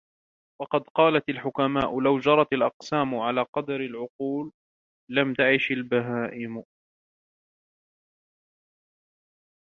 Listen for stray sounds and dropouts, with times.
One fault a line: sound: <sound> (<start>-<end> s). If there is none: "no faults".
no faults